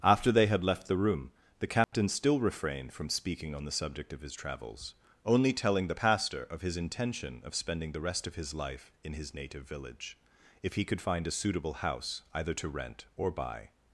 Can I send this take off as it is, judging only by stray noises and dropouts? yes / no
no